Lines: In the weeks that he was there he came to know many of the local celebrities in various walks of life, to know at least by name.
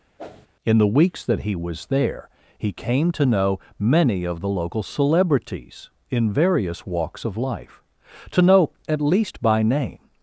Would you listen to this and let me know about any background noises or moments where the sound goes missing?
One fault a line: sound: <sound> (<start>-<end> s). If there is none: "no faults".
sound: whoosh (0.2-0.5 s)